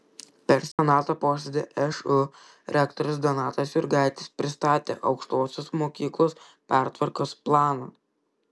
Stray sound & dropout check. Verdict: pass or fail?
fail